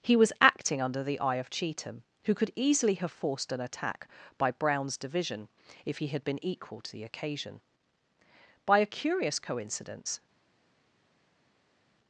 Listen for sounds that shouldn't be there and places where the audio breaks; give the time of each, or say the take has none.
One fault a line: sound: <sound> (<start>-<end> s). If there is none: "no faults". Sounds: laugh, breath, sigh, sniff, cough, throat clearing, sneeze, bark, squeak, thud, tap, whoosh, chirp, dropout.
no faults